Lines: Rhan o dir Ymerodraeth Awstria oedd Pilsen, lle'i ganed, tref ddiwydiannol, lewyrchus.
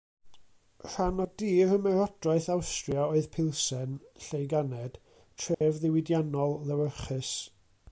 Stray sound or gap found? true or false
true